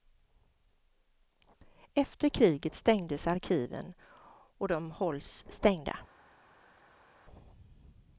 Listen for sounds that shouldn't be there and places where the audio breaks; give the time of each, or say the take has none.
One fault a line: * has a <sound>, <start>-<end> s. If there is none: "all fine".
all fine